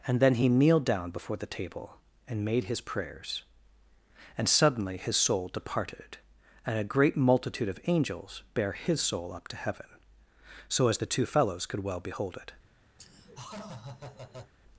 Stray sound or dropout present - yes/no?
yes